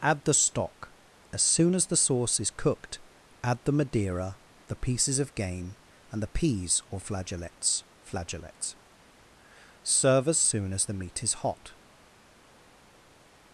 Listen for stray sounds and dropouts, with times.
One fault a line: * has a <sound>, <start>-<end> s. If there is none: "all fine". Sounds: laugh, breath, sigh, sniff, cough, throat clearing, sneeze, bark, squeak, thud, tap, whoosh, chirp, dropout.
all fine